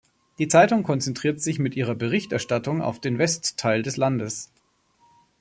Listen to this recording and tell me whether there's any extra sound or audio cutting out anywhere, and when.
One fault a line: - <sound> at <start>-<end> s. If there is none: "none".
none